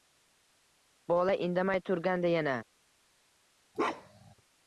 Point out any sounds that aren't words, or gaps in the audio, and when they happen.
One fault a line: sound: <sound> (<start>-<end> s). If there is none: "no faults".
sound: bark (3.7-4.3 s)